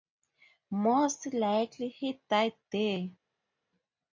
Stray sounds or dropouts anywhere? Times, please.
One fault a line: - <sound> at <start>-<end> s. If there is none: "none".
none